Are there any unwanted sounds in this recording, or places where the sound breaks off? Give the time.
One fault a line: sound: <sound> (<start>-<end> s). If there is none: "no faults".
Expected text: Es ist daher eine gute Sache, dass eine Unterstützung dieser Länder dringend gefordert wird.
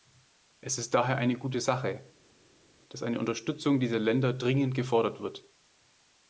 no faults